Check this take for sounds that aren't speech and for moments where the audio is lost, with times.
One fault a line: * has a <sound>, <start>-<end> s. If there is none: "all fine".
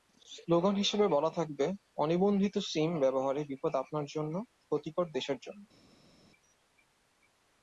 all fine